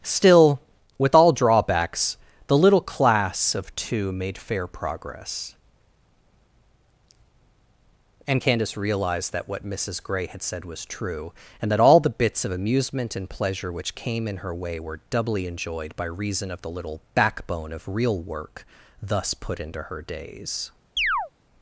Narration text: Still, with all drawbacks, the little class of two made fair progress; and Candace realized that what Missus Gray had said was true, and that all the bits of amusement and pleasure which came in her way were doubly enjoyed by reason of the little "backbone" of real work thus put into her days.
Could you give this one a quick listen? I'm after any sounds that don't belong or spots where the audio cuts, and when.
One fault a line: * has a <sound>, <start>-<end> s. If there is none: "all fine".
* has a chirp, 21.0-21.3 s